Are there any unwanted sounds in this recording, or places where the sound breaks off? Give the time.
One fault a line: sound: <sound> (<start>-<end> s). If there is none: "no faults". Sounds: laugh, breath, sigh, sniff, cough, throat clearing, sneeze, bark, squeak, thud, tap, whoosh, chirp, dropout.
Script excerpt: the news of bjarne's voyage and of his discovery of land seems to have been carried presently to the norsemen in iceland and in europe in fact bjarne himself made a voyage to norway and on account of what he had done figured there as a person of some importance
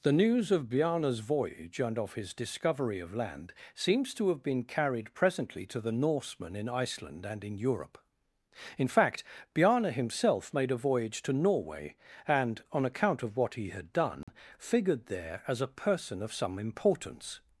sound: dropout (14.2-14.3 s)